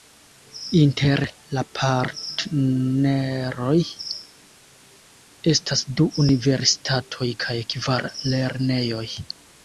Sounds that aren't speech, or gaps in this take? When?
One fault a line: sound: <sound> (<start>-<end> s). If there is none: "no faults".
no faults